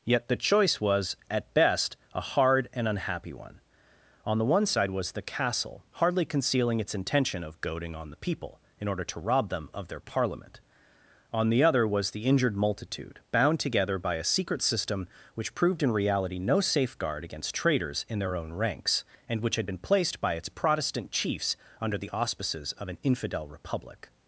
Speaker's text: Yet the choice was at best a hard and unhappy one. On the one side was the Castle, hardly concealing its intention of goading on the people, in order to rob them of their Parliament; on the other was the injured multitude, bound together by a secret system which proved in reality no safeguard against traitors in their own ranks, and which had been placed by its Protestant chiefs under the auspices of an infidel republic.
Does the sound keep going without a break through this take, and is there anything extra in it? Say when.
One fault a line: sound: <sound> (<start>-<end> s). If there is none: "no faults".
no faults